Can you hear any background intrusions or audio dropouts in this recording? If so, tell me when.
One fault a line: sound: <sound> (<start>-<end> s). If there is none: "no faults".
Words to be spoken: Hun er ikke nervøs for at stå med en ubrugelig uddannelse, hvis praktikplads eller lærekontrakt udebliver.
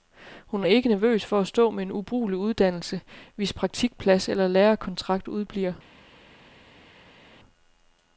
no faults